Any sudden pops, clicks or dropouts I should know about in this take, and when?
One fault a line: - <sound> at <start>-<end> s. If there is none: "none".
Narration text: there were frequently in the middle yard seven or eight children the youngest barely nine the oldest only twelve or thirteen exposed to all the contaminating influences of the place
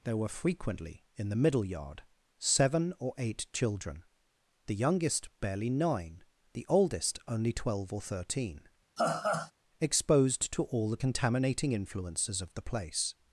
- laugh at 9.0-9.5 s